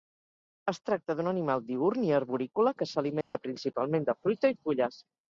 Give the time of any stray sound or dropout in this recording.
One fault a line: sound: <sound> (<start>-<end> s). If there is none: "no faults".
sound: dropout (3.2-3.3 s)